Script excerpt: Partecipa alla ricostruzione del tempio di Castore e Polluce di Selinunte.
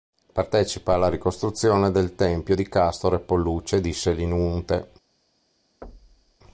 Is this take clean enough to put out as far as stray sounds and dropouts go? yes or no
no